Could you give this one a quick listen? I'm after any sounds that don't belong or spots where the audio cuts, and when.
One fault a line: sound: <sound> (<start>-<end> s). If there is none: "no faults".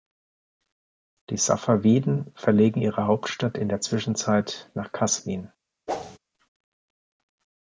sound: whoosh (5.9-6.2 s)